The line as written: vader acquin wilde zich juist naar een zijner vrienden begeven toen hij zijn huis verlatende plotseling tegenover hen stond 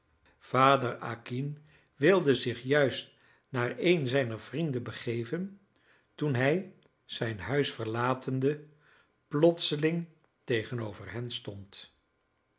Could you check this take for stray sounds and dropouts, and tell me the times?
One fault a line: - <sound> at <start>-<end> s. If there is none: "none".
none